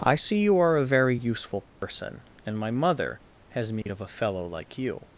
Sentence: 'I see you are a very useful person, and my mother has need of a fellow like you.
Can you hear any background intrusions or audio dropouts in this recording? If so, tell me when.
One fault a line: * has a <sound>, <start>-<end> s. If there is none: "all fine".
* has a dropout, 1.7-1.8 s
* has a dropout, 3.8-3.9 s